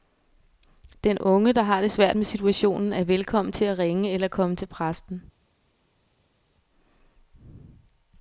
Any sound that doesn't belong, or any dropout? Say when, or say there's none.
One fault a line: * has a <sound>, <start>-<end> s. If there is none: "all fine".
all fine